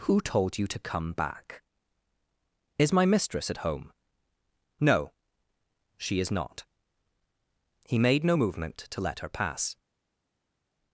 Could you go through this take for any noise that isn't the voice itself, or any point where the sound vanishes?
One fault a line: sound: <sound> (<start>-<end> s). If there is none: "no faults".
no faults